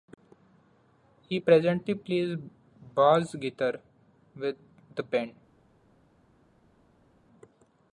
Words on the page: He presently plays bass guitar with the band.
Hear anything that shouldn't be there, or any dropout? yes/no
no